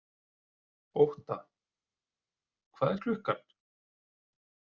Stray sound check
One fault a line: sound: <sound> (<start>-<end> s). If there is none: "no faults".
no faults